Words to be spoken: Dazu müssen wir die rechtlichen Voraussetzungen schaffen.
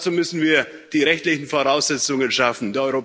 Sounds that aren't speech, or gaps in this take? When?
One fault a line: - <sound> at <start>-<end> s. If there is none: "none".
none